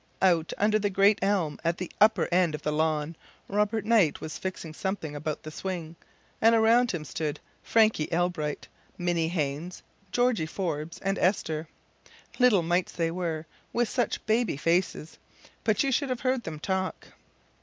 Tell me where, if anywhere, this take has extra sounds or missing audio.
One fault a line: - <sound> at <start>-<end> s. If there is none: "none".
none